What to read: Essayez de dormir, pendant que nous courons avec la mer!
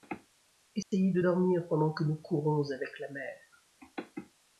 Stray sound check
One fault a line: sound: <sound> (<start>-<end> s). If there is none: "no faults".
sound: dropout (0.8-0.9 s)